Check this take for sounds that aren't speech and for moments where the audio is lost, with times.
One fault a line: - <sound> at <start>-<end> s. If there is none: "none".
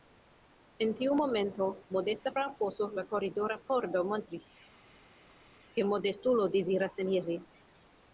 none